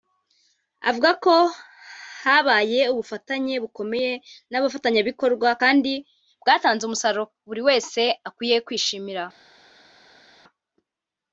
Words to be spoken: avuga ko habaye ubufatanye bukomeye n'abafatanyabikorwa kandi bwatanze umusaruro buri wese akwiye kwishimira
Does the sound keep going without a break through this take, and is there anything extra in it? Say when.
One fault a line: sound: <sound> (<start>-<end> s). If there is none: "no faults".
no faults